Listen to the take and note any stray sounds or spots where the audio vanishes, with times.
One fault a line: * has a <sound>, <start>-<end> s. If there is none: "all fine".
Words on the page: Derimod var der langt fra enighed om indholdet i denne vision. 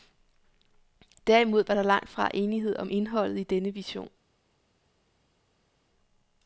all fine